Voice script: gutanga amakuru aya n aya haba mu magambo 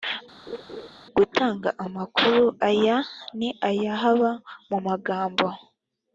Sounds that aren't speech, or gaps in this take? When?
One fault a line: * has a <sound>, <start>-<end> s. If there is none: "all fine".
* has a laugh, 0.5-0.9 s